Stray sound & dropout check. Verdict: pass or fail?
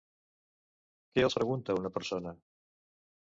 pass